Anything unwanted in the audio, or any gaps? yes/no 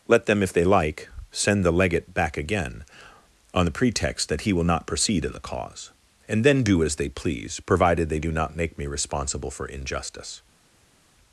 no